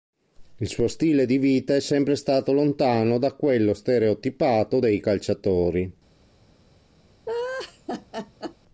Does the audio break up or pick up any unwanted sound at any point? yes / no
yes